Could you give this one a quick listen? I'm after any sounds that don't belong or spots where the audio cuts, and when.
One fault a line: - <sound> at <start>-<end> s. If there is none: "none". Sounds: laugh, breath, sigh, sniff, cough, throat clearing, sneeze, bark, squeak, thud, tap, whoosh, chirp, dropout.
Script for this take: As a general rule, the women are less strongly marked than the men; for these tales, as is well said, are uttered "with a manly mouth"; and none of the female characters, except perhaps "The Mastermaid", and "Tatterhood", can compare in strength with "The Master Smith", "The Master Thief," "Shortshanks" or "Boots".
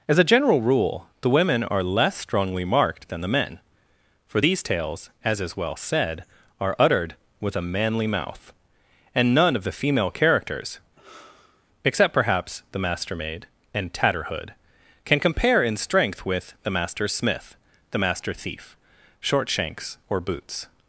- sigh at 11.0-11.7 s